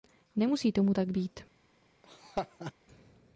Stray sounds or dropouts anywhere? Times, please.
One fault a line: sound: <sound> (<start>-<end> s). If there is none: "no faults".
sound: laugh (2.0-2.7 s)